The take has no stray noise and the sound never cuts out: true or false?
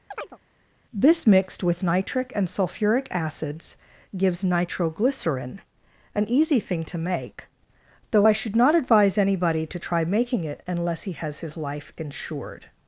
false